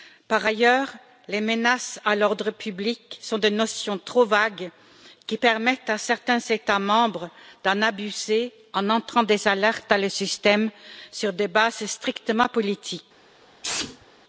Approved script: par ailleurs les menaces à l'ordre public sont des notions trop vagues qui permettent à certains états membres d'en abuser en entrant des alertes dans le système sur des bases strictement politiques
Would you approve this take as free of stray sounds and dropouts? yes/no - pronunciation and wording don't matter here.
no